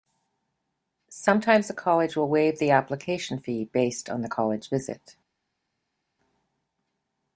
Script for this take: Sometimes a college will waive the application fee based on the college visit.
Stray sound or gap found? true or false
false